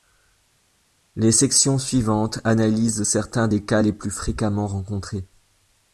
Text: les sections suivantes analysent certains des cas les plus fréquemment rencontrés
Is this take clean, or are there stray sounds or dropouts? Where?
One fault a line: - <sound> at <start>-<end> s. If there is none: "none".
none